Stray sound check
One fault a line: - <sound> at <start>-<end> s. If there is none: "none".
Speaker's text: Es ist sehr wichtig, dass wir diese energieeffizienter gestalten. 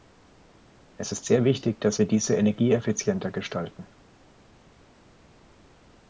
none